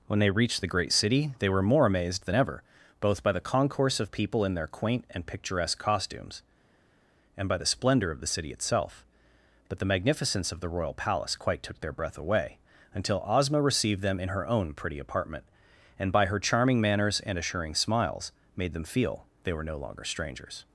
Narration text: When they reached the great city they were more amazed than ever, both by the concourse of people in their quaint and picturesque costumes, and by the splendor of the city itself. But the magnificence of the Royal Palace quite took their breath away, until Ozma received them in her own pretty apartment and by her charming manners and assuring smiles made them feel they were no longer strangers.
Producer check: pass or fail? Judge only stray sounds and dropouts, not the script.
pass